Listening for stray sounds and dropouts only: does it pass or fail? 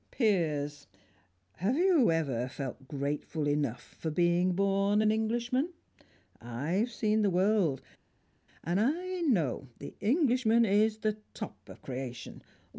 pass